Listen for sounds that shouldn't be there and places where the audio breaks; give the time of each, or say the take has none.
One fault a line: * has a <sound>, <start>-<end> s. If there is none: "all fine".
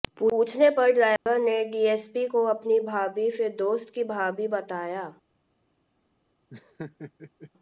* has a dropout, 1.2-1.3 s
* has a laugh, 6.5-7.5 s